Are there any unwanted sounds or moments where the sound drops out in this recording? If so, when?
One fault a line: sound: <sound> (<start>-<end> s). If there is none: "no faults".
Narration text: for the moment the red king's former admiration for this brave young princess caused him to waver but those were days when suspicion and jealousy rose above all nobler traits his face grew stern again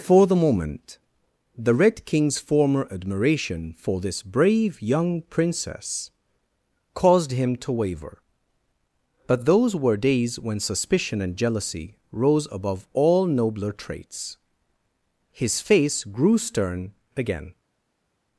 no faults